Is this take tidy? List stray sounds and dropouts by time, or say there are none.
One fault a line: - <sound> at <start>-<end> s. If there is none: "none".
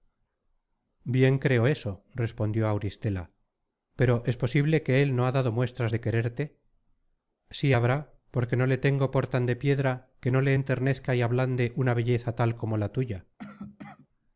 - cough at 13.4-14.1 s